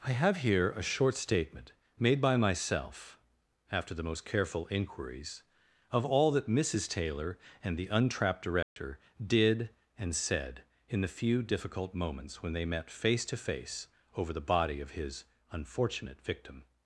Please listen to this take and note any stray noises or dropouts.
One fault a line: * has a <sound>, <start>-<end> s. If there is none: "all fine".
* has a dropout, 8.6-8.8 s